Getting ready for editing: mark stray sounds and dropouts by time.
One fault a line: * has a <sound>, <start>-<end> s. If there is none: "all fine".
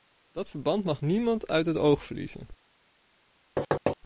* has a thud, 3.6-4.0 s